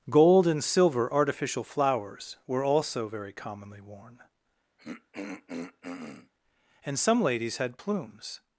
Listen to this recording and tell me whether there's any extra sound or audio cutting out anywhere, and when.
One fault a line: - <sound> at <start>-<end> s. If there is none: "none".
- throat clearing at 4.8-6.3 s